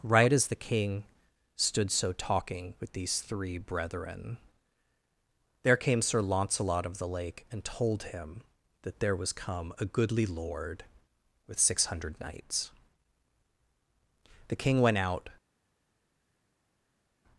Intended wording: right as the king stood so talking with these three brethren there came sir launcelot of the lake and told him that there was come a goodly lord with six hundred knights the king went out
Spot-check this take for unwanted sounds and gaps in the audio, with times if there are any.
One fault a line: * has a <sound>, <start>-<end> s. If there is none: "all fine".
all fine